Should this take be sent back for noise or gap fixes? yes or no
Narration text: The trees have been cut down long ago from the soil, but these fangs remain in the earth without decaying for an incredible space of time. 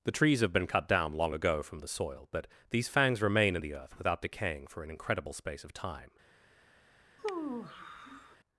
yes